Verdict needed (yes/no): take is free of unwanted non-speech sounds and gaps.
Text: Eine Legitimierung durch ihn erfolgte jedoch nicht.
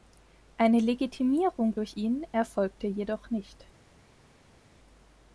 yes